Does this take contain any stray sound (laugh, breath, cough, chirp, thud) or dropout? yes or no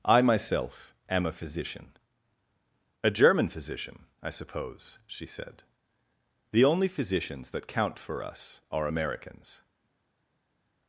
no